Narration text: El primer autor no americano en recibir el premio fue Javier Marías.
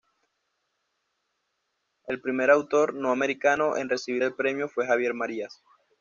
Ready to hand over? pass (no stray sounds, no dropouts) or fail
pass